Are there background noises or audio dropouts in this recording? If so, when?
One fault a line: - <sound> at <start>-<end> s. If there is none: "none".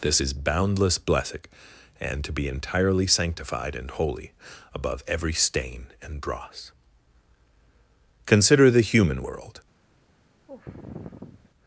- sigh at 10.5-11.5 s